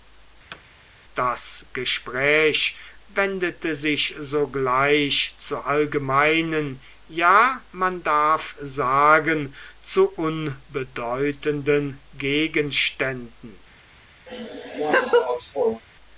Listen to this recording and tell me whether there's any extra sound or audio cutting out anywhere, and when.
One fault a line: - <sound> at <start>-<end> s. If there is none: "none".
- thud at 0.5-0.6 s
- laugh at 14.3-15.8 s